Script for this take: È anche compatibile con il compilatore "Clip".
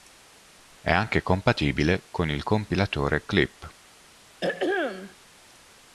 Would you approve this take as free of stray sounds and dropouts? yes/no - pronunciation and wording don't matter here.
no